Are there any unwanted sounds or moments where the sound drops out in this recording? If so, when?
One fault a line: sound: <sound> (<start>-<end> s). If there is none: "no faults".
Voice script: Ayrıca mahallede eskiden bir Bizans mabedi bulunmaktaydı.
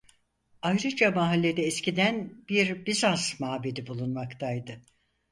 no faults